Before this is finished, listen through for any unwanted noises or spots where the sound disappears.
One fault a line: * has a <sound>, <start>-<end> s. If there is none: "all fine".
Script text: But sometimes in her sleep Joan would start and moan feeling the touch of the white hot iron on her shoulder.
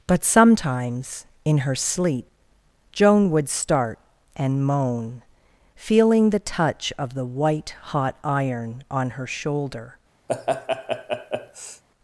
* has a laugh, 10.3-11.8 s